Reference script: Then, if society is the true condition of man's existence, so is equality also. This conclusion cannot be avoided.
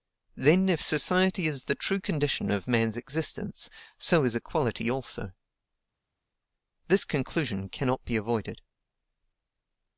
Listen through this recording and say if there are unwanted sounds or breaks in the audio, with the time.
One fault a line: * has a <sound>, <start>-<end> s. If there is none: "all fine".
all fine